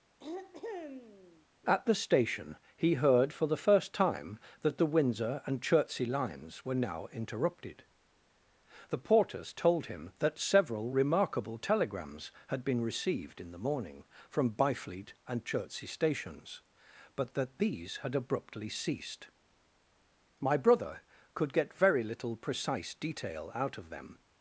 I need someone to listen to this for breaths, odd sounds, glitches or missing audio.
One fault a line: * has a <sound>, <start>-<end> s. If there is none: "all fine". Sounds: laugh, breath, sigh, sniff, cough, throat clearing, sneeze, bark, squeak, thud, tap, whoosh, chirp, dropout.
* has a throat clearing, 0.2-1.5 s